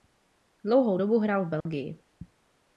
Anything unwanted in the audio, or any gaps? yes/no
yes